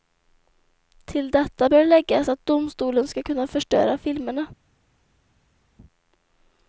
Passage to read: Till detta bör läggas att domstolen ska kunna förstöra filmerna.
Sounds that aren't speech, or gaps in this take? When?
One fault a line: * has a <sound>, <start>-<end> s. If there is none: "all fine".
all fine